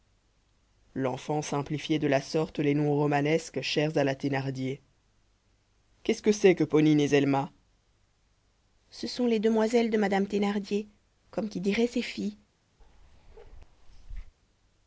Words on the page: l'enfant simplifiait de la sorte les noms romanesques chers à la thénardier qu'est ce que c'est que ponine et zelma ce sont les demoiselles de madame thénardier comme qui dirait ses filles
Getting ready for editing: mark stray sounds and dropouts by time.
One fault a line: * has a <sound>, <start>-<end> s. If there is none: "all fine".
* has a bark, 12.8-14.3 s